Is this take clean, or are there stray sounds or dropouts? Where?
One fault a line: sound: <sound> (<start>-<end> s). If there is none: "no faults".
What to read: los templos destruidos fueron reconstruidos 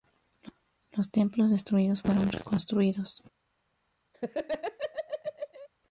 sound: laugh (4.1-5.7 s)